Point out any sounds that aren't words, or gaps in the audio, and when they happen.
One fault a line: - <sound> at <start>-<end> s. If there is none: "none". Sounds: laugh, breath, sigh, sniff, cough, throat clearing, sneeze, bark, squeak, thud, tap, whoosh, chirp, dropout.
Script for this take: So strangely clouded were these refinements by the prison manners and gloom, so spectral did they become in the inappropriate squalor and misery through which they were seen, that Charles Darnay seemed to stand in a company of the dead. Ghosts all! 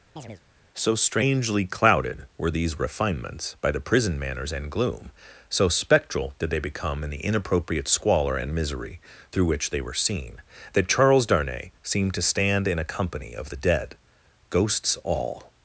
- chirp at 0.2-0.4 s